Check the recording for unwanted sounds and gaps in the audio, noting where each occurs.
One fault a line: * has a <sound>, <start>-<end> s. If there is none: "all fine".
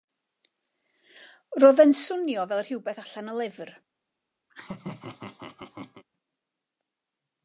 * has a laugh, 4.5-6.0 s